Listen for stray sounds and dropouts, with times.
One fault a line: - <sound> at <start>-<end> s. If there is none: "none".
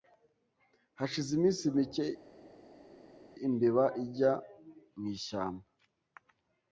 none